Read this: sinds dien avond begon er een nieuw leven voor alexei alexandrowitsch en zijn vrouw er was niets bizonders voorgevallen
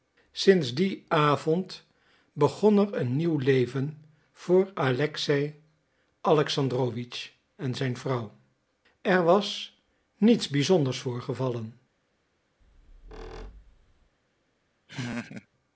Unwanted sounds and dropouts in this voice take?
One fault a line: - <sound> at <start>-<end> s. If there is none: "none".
- squeak at 12.6-14.1 s
- laugh at 14.9-15.5 s